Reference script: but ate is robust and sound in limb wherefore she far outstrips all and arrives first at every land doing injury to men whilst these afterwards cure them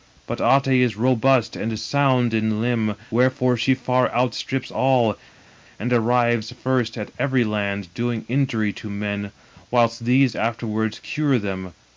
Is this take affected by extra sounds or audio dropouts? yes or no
no